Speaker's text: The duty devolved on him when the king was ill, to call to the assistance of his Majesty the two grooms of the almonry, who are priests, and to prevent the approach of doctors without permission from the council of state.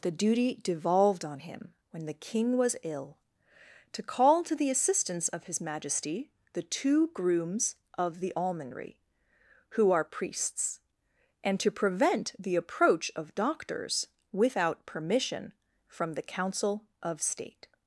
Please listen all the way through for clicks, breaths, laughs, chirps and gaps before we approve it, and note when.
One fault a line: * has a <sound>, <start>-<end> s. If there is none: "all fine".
all fine